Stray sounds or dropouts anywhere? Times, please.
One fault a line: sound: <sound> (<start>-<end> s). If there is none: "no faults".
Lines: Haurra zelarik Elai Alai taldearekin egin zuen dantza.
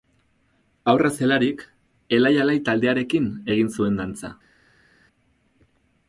no faults